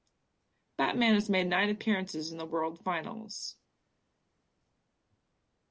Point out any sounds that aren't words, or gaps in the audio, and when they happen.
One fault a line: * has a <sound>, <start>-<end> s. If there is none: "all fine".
all fine